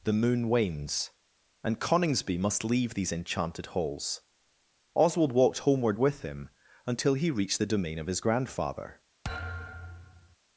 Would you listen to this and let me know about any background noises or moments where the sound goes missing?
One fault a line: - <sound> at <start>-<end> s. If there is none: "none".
- thud at 9.2-10.4 s